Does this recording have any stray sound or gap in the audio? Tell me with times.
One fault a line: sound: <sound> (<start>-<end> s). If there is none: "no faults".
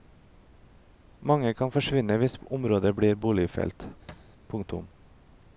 sound: thud (4.1-4.3 s)